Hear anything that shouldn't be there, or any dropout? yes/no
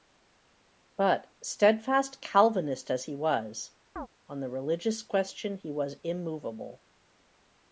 yes